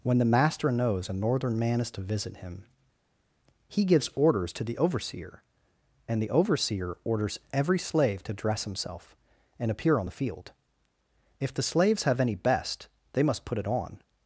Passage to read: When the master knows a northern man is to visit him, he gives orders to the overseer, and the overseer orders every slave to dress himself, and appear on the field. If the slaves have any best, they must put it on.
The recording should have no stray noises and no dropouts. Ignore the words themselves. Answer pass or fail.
pass